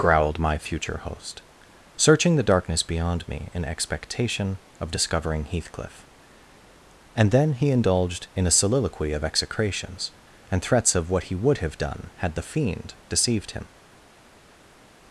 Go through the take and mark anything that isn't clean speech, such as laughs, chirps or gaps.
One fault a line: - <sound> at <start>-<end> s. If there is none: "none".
none